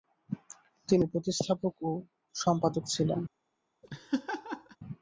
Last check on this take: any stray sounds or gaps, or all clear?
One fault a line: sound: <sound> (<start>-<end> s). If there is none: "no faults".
sound: laugh (3.8-4.8 s)